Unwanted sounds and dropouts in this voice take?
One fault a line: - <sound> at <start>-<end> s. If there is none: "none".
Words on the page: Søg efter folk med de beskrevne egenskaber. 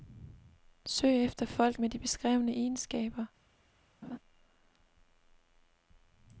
- laugh at 4.0-4.2 s